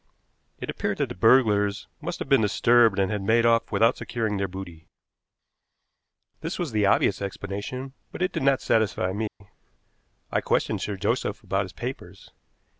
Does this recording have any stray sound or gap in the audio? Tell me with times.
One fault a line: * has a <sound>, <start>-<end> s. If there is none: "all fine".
* has a dropout, 9.3-9.4 s